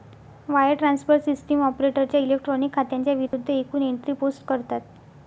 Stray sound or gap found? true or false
true